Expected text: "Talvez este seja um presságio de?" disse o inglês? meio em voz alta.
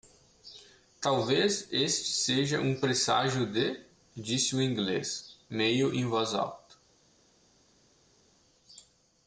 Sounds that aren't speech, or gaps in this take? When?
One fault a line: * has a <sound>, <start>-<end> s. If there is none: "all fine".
all fine